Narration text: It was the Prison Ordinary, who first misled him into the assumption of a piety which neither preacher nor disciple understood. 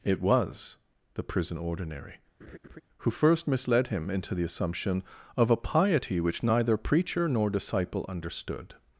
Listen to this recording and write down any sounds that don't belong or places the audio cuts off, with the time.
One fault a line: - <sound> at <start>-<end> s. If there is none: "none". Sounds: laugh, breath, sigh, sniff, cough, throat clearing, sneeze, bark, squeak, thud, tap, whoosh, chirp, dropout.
- laugh at 2.4-2.8 s